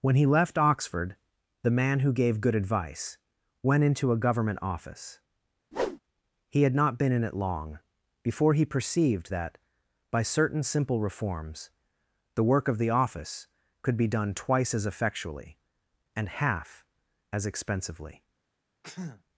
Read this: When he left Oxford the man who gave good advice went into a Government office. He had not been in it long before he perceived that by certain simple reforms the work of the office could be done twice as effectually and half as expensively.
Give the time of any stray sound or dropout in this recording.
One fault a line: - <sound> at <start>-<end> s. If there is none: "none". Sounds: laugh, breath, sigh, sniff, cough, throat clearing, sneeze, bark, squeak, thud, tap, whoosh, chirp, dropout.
- whoosh at 5.7-6.0 s
- sneeze at 18.8-19.2 s